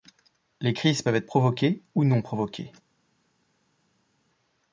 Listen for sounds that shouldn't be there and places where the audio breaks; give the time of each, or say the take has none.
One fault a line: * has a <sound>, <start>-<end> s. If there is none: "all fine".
all fine